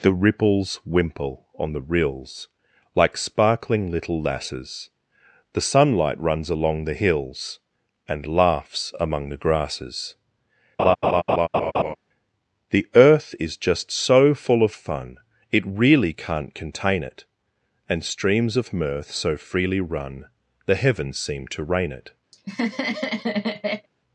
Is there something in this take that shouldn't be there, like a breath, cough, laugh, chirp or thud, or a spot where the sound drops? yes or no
yes